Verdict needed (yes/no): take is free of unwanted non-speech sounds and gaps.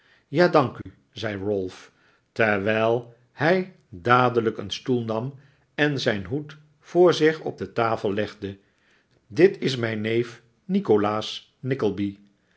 no